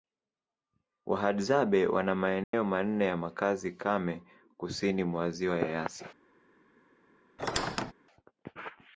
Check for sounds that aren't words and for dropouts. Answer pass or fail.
fail